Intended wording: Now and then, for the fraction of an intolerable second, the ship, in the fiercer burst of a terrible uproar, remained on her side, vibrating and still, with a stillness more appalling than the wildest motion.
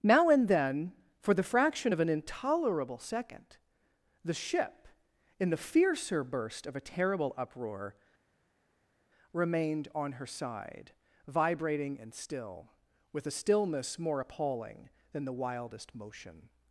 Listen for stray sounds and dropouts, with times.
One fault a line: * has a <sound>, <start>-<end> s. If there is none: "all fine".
all fine